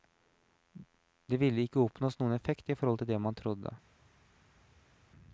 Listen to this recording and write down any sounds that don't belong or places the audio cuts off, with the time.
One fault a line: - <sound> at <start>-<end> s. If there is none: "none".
none